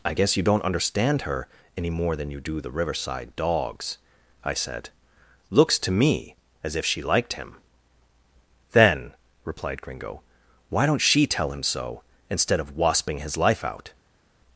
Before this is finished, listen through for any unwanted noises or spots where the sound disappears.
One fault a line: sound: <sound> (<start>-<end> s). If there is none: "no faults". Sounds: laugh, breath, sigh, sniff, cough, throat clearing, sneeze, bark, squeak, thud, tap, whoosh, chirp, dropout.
no faults